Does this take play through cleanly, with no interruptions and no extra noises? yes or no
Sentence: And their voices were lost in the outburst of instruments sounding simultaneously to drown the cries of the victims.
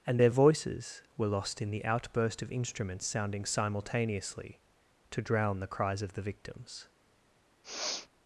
no